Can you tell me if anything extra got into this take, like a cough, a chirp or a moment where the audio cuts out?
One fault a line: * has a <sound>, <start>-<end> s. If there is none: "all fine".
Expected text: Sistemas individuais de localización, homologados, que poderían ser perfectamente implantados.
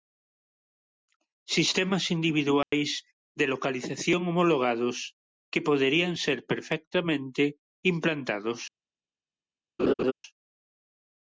* has a dropout, 2.6-2.7 s
* has a laugh, 9.8-10.1 s